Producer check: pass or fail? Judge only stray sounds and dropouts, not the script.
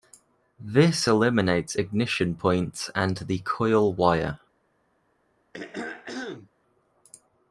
fail